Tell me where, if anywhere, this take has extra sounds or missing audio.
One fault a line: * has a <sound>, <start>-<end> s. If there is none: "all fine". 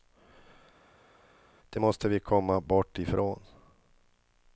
all fine